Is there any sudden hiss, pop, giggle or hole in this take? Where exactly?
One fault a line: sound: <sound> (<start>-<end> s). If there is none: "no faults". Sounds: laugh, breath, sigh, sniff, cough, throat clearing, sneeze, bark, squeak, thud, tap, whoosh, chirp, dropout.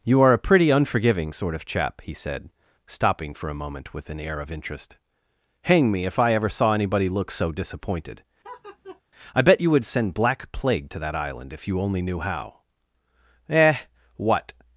sound: laugh (8.4-9.0 s)